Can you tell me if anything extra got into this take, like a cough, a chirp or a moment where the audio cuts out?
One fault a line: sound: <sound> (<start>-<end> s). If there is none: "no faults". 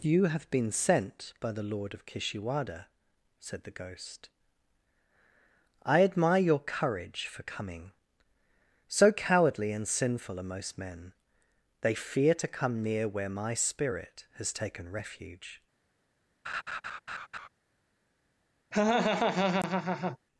sound: laugh (16.4-17.5 s)
sound: laugh (18.7-20.2 s)